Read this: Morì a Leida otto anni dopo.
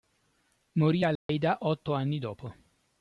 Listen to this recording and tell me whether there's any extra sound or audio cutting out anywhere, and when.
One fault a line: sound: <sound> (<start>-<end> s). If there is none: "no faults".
sound: dropout (1.2-1.3 s)